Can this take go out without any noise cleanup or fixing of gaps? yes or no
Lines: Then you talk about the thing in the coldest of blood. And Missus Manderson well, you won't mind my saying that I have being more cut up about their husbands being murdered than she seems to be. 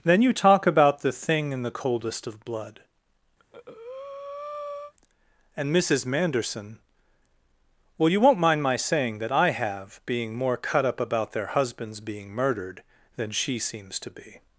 no